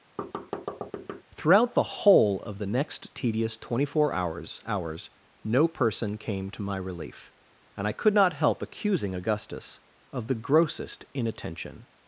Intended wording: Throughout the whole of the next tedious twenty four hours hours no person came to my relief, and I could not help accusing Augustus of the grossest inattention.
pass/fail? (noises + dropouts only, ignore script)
fail